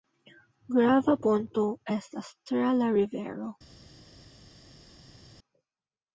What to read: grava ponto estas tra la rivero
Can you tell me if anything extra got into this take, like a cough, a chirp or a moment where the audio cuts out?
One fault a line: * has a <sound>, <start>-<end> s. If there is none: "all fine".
all fine